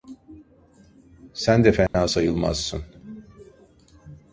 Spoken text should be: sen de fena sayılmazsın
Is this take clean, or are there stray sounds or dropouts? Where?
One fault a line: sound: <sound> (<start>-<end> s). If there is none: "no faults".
sound: dropout (1.9-1.9 s)